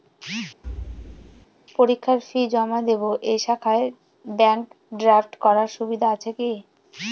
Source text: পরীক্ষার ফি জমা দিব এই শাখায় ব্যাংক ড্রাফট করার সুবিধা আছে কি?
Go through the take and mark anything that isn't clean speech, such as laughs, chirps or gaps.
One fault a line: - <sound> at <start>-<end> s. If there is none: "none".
- thud at 0.6-1.5 s